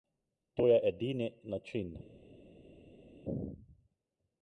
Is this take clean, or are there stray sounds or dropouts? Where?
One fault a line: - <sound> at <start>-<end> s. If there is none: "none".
none